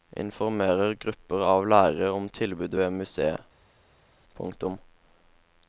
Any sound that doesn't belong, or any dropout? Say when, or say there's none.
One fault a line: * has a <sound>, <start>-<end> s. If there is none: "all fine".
all fine